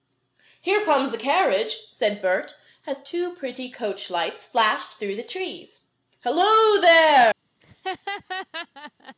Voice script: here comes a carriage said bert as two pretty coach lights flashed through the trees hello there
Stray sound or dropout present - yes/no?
yes